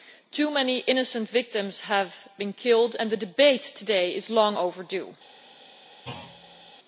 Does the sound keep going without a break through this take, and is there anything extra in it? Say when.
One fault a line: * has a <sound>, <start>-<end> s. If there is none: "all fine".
* has a thud, 6.0-6.7 s